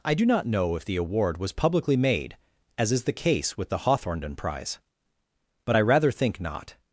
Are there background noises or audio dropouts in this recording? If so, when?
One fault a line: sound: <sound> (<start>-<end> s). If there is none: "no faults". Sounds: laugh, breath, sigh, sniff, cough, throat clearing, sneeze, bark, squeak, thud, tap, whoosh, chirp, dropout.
no faults